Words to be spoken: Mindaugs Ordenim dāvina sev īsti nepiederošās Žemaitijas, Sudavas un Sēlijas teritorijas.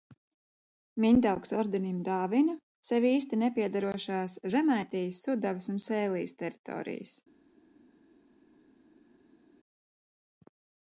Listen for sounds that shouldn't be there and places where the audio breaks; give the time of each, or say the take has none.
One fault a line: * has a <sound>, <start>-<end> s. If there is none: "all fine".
all fine